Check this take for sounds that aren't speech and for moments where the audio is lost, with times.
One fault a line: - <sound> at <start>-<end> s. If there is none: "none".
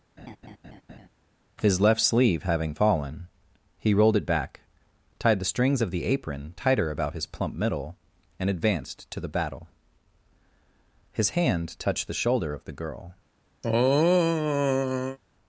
- laugh at 0.2-1.1 s
- throat clearing at 13.6-15.2 s